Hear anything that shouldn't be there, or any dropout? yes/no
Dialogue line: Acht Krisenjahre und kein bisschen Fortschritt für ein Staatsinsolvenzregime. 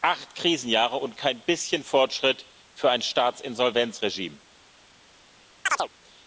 yes